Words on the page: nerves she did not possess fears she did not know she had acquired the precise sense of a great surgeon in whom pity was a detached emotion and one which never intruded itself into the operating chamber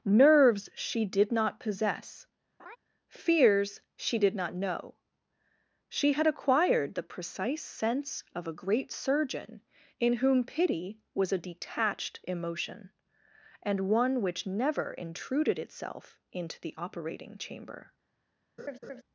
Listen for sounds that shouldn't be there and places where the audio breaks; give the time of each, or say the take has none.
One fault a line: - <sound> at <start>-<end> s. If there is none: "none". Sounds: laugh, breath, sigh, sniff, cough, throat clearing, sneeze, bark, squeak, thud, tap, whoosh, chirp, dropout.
- laugh at 2.6-2.8 s
- laugh at 18.6-19.0 s